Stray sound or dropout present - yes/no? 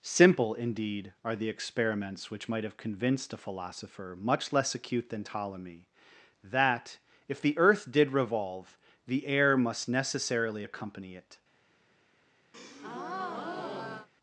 yes